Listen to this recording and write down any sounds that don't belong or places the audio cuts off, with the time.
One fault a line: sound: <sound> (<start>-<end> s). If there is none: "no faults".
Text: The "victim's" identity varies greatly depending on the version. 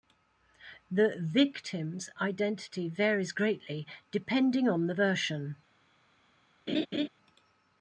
sound: laugh (6.7-7.1 s)